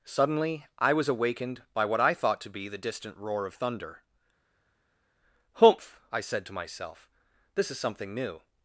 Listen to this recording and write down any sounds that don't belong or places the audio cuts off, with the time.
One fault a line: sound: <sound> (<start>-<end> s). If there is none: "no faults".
no faults